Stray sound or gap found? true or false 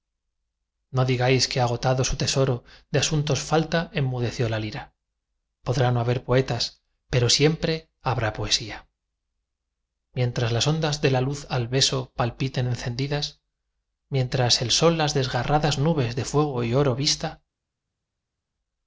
false